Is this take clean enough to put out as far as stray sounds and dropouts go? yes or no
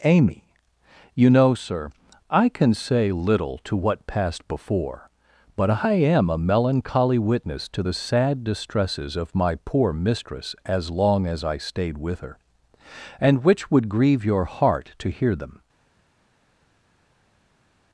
yes